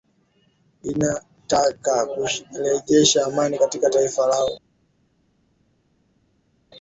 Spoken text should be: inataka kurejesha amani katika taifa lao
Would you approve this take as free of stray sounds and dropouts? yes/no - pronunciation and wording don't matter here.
yes